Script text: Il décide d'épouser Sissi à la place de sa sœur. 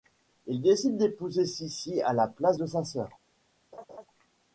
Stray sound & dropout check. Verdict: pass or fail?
fail